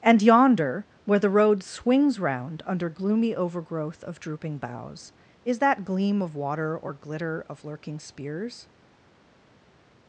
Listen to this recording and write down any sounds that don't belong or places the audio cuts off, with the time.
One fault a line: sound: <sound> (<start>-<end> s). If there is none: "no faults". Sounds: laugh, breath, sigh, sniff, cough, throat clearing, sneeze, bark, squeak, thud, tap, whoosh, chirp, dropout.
no faults